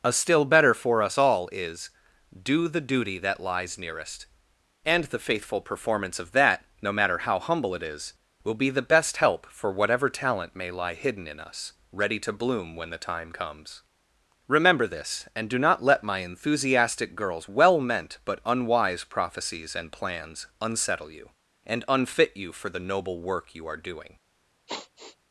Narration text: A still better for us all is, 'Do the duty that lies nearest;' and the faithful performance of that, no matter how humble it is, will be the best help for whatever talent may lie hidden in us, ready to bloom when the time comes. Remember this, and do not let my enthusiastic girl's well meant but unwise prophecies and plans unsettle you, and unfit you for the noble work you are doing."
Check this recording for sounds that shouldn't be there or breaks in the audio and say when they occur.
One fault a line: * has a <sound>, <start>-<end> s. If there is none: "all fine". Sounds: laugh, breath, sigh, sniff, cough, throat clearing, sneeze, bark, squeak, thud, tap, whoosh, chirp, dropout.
* has a sigh, 24.7-25.2 s